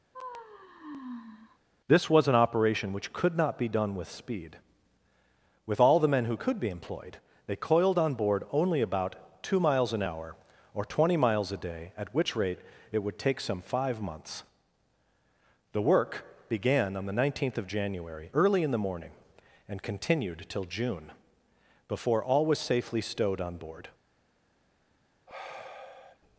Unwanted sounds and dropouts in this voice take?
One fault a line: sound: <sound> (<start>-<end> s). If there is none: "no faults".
sound: sigh (0.1-1.6 s)
sound: sigh (25.3-26.2 s)